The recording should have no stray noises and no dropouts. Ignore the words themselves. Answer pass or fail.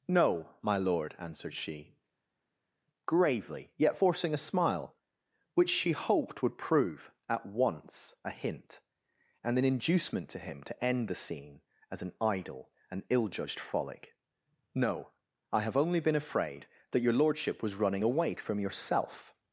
pass